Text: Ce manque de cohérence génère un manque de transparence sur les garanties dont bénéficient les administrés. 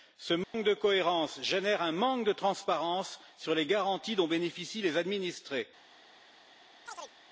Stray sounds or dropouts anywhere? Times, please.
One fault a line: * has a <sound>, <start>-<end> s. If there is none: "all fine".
* has a dropout, 0.4-0.5 s
* has a chirp, 6.9-7.2 s